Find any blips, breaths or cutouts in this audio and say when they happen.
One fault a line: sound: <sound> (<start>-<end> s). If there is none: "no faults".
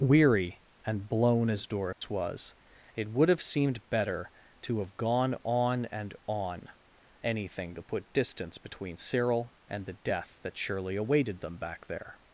sound: dropout (1.9-2.0 s)